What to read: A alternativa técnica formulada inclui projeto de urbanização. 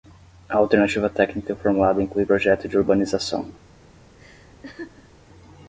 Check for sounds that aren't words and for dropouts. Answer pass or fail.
fail